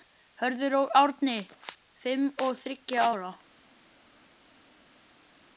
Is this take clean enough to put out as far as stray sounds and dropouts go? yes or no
yes